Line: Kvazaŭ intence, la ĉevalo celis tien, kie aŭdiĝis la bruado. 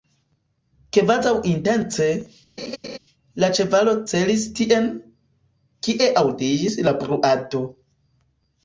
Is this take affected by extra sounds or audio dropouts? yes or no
yes